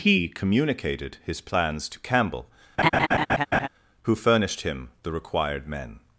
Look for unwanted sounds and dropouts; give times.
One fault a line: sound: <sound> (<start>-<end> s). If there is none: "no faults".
sound: laugh (2.8-3.7 s)